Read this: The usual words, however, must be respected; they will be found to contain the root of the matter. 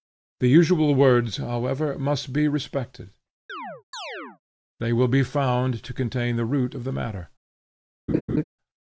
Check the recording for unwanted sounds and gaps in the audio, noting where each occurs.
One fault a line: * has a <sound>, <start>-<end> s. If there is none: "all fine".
* has a chirp, 3.5-4.4 s
* has a laugh, 8.1-8.4 s